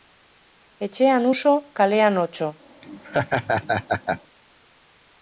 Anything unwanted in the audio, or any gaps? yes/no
yes